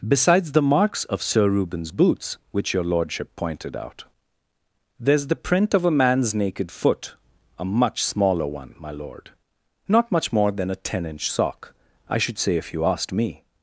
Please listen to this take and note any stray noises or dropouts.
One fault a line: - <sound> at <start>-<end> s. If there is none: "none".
none